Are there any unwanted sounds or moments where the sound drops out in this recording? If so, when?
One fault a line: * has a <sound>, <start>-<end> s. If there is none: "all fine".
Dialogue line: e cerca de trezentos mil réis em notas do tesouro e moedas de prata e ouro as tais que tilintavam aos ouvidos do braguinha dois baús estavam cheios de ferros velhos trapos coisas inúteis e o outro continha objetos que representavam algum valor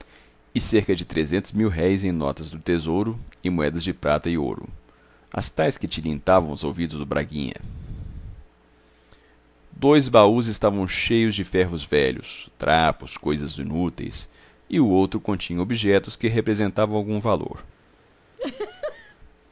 * has a laugh, 18.4-19.2 s